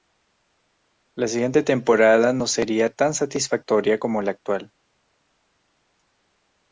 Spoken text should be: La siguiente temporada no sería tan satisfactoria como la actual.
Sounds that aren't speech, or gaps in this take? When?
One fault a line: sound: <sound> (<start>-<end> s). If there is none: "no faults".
no faults